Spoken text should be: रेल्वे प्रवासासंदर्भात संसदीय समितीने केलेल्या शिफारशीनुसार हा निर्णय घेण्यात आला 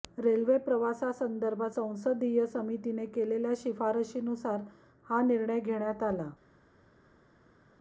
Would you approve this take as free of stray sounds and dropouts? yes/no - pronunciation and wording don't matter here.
yes